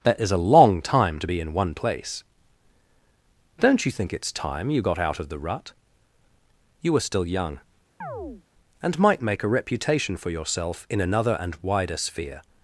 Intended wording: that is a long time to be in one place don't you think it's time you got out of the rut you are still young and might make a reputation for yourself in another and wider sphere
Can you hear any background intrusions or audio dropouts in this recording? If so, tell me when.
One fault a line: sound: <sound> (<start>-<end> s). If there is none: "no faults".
sound: chirp (8.0-8.4 s)